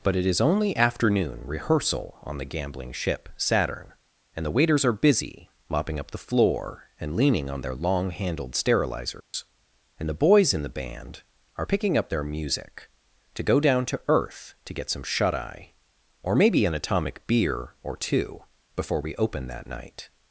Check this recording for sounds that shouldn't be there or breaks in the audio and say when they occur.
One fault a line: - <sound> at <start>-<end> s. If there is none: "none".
- dropout at 9.2-9.3 s